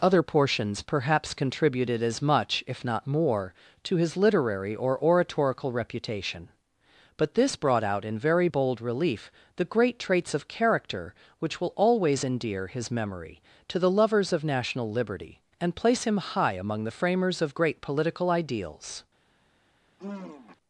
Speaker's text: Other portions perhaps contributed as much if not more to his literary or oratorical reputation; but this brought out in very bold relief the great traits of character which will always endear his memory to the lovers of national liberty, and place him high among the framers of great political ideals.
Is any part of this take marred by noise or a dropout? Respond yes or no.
yes